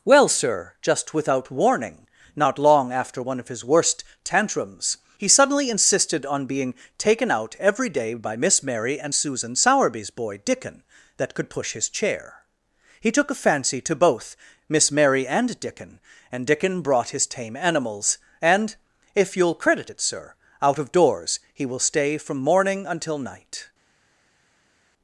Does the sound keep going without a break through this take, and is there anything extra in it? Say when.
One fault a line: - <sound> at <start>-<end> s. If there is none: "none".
none